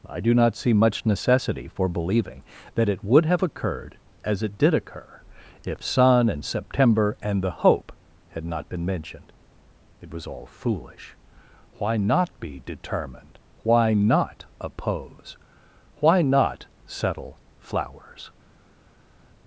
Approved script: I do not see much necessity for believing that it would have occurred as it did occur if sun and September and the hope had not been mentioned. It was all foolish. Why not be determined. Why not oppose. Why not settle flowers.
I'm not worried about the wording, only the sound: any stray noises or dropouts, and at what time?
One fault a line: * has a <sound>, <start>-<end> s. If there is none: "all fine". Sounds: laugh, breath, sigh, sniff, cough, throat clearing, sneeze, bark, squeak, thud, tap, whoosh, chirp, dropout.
all fine